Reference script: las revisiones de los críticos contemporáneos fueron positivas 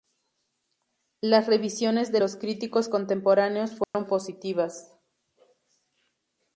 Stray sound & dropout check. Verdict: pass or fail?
fail